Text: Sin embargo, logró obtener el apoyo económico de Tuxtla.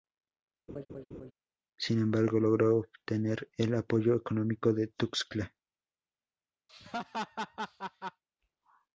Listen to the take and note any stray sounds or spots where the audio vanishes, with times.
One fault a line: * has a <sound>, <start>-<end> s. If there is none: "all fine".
* has a laugh, 0.7-1.3 s
* has a laugh, 6.7-8.2 s